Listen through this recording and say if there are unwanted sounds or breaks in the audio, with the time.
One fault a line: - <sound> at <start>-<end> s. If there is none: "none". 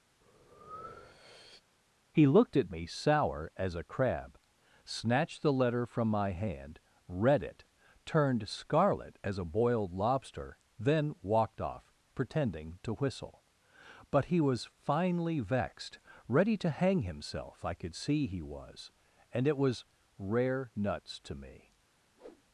- breath at 0.2-1.6 s
- whoosh at 22.2-22.4 s